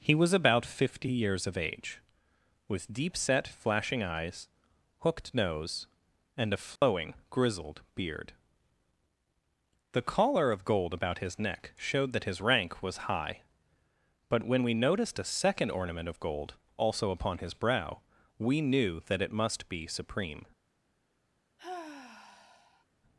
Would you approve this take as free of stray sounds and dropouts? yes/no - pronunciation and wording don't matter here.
no